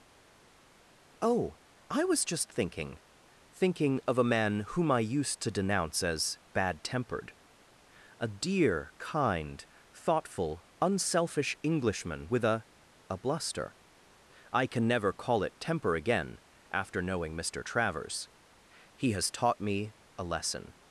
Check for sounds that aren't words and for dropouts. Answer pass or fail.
pass